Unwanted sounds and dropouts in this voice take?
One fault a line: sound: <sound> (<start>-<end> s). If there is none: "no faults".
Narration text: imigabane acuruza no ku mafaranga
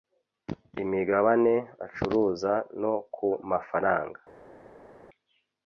no faults